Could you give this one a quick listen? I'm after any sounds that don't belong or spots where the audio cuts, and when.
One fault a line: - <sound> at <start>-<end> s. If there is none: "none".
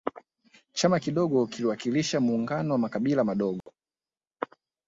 - dropout at 3.6-3.7 s